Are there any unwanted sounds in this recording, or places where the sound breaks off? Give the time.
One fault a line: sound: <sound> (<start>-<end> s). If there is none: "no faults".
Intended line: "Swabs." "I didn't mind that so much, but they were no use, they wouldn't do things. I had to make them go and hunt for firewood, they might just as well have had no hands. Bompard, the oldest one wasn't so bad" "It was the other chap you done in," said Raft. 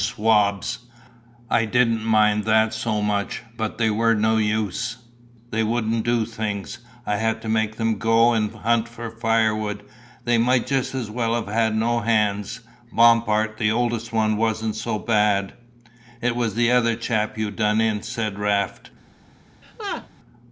sound: laugh (19.6-20.1 s)